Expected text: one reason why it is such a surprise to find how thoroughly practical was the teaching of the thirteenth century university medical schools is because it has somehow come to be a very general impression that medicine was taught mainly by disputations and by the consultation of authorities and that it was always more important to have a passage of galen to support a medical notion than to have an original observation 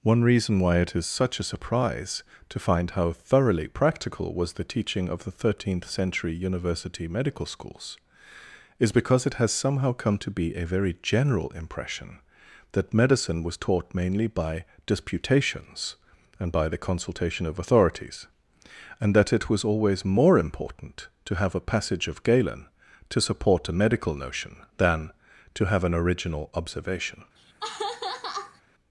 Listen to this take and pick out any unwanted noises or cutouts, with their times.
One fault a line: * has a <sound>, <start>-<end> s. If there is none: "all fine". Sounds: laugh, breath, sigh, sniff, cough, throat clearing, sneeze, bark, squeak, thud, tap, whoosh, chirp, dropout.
* has a laugh, 27.4-28.6 s